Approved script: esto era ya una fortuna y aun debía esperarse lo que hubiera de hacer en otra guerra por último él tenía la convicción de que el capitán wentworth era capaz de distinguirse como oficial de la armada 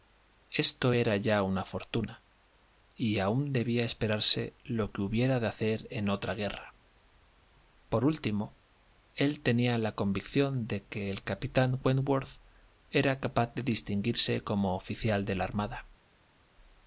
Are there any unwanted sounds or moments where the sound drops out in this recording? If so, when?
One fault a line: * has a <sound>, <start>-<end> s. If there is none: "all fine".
all fine